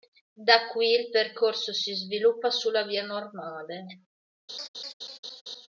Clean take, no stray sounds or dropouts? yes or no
no